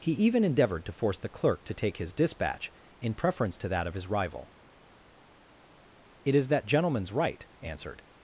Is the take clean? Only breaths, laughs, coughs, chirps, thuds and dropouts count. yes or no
yes